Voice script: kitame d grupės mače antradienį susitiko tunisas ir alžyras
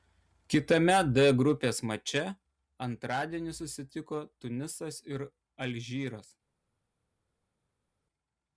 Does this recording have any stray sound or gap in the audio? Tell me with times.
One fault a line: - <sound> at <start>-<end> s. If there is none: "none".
none